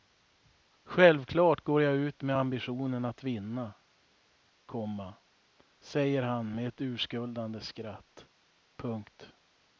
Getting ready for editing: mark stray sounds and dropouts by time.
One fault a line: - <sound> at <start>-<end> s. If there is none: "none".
none